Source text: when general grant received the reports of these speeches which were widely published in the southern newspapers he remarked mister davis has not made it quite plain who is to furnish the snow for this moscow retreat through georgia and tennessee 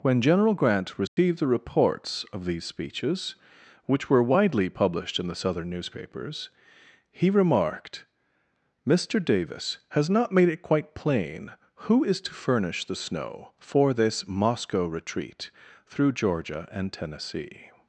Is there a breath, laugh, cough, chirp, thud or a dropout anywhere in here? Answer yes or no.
yes